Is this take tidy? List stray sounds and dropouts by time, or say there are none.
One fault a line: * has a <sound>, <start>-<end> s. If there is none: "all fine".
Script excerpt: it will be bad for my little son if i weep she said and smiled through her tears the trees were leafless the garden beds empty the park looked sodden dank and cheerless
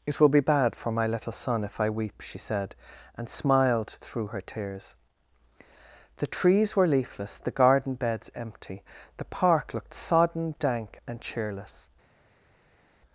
all fine